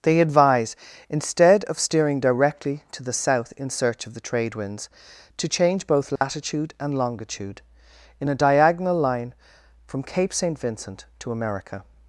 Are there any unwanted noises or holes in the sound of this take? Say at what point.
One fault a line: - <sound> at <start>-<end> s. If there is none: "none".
- dropout at 6.2-6.2 s